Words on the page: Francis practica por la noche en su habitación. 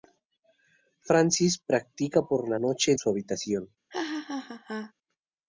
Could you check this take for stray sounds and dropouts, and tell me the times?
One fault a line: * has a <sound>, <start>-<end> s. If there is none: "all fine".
* has a laugh, 3.9-4.9 s